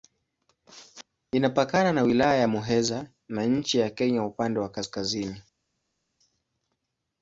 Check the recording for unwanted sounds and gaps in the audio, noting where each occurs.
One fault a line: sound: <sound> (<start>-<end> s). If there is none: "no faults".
no faults